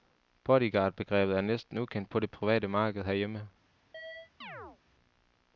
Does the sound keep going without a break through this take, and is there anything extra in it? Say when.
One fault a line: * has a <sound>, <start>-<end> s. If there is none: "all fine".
* has a chirp, 3.9-4.8 s